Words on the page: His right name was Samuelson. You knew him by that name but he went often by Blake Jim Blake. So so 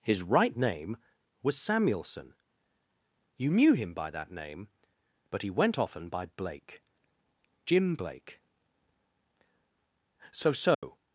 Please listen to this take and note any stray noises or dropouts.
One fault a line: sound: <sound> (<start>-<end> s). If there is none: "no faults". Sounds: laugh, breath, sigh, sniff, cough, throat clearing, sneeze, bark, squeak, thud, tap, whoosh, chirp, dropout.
sound: dropout (10.7-10.8 s)